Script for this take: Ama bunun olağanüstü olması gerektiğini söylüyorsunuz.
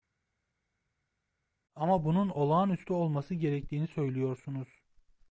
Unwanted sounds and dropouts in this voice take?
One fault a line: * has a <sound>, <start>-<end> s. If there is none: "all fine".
all fine